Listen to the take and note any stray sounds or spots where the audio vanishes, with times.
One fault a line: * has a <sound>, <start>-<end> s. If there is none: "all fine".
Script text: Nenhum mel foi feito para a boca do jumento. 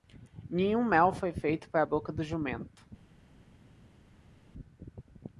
all fine